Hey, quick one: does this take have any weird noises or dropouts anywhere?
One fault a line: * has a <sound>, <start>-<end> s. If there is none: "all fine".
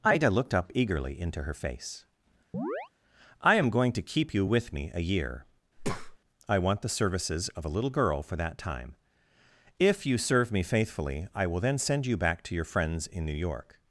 * has a chirp, 2.5-2.9 s
* has a breath, 5.8-6.2 s